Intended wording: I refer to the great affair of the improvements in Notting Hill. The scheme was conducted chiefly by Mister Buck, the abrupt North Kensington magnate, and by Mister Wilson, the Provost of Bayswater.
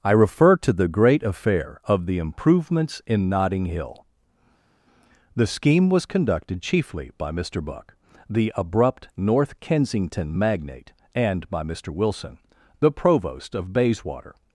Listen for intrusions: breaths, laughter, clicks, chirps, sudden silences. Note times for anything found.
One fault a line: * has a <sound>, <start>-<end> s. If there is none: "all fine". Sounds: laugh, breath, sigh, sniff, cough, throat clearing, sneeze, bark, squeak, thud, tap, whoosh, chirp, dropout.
all fine